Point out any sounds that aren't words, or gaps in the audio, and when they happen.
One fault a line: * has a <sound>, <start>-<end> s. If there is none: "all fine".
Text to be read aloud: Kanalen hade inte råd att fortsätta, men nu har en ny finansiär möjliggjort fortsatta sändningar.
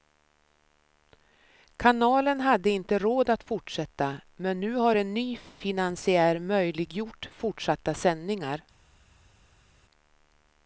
all fine